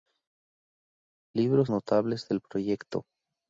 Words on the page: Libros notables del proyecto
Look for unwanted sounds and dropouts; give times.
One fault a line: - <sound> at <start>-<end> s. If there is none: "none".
none